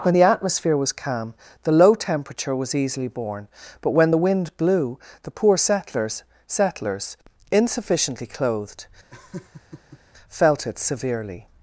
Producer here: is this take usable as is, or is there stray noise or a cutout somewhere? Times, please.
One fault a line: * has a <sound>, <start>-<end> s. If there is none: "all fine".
* has a laugh, 9.1-10.0 s